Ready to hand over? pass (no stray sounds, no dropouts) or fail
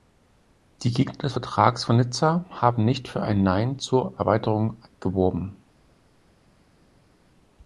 pass